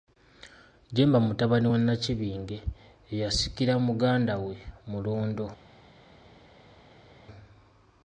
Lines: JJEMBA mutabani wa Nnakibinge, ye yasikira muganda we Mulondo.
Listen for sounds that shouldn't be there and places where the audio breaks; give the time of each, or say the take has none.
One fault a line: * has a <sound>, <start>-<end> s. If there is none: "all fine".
all fine